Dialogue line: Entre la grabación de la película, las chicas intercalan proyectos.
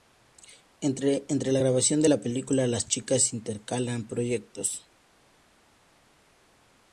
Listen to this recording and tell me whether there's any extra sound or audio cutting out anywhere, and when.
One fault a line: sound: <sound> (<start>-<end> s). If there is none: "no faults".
no faults